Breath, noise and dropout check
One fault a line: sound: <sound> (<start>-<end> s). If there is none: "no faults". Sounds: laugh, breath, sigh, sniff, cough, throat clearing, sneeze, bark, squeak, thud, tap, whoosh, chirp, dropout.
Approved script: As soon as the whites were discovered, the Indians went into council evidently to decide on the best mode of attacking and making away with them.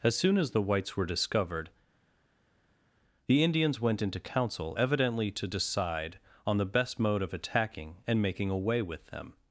no faults